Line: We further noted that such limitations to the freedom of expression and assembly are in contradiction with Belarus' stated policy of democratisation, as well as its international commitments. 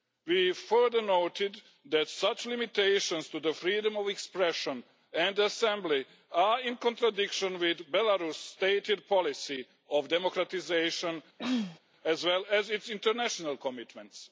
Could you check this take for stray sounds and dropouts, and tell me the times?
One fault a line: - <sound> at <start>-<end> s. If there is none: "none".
- throat clearing at 11.4-11.8 s